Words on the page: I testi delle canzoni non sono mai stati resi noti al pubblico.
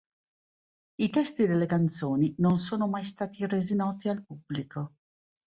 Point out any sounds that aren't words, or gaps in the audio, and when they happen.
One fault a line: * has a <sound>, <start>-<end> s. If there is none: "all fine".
all fine